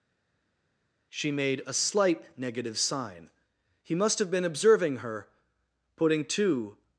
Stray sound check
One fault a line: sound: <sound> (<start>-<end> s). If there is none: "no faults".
no faults